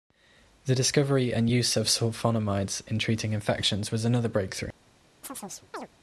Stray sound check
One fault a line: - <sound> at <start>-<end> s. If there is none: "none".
- chirp at 5.2-5.9 s